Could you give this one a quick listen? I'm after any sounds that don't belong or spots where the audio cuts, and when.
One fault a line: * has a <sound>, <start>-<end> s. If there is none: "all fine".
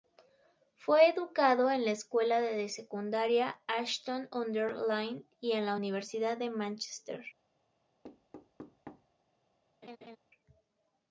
* has a thud, 8.0-9.1 s
* has a laugh, 9.8-10.2 s